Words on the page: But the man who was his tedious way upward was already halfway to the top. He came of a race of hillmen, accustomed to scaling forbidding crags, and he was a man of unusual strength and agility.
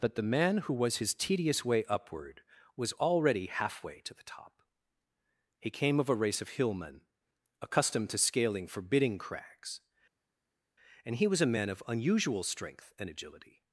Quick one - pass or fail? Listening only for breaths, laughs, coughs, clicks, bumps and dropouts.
pass